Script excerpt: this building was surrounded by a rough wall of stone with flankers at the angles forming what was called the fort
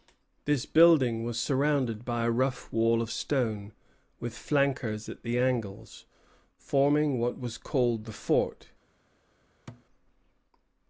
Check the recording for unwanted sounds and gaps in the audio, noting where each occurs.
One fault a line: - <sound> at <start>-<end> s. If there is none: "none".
- thud at 9.7-9.9 s